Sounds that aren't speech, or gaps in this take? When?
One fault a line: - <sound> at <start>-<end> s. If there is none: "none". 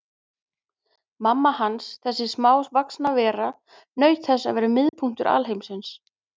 - dropout at 4.9-4.9 s